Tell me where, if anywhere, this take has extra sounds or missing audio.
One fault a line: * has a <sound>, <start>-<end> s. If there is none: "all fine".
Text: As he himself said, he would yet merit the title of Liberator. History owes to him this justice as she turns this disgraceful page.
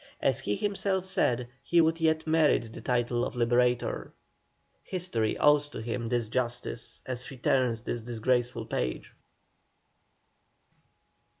all fine